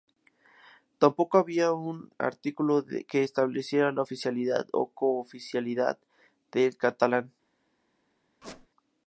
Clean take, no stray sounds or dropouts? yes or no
no